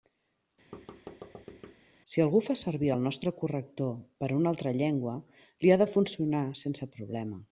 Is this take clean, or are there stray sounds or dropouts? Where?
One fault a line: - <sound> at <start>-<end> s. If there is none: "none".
- thud at 0.7-1.8 s